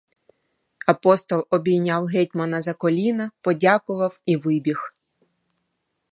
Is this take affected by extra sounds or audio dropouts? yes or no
no